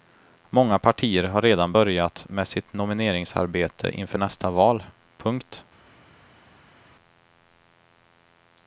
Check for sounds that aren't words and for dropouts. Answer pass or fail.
pass